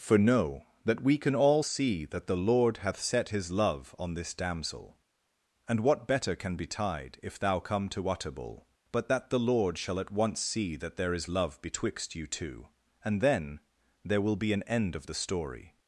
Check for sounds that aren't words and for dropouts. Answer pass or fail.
pass